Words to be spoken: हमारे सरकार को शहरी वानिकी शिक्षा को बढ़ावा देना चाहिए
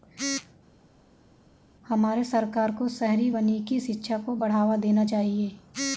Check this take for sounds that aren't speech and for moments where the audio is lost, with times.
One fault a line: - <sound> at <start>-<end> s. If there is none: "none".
none